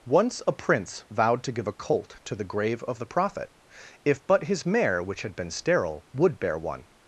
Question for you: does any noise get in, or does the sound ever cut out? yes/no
no